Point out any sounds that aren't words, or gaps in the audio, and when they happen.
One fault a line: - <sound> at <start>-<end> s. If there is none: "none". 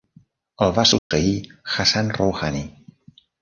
- dropout at 1.0-1.1 s